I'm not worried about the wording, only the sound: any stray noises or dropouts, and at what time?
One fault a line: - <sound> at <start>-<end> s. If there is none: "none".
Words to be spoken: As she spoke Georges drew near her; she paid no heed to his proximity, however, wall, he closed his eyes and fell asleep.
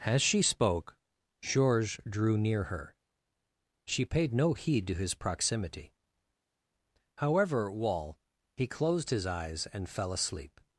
none